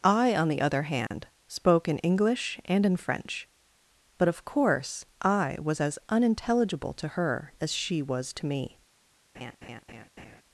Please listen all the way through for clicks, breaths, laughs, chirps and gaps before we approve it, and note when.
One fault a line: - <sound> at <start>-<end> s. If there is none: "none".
- dropout at 1.1-1.1 s
- laugh at 9.3-10.4 s